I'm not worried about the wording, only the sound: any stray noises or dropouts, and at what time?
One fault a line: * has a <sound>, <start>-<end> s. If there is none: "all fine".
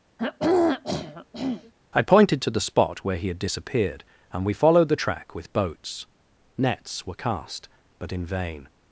* has a throat clearing, 0.2-1.7 s